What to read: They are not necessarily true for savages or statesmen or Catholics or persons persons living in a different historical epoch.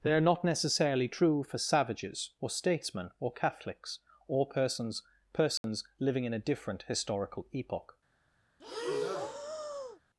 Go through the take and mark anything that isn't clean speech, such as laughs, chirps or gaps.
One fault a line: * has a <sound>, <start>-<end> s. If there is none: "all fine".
* has a dropout, 5.6-5.6 s
* has a breath, 8.6-10.0 s